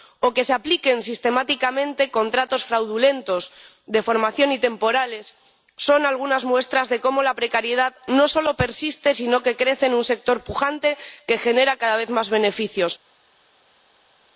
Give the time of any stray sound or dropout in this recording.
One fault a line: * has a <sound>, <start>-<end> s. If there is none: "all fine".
all fine